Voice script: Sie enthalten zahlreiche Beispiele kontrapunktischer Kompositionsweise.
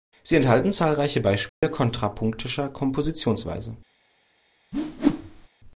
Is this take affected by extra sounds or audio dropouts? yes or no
yes